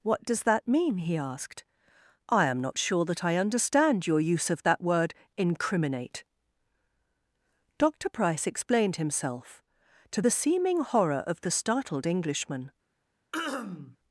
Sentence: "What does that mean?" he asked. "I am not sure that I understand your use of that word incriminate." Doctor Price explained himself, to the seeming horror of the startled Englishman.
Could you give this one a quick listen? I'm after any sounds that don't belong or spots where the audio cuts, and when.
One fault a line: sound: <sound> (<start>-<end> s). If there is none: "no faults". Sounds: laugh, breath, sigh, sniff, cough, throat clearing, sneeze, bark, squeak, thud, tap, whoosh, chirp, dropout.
sound: throat clearing (13.3-14.0 s)